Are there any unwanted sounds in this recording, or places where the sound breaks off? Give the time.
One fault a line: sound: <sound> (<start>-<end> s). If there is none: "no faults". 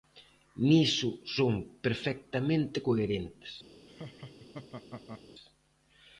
sound: laugh (3.9-5.2 s)